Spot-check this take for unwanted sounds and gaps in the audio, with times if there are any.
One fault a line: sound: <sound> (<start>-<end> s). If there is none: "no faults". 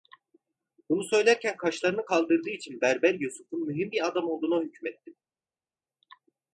no faults